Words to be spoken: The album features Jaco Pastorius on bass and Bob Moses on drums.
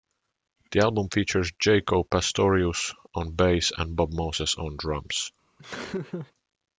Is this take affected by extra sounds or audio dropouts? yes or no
yes